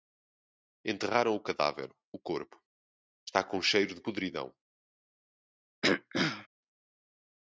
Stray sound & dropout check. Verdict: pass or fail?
fail